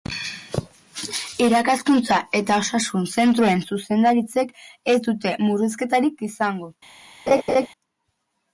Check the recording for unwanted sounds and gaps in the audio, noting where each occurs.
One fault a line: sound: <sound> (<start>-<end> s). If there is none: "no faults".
sound: laugh (7.3-7.7 s)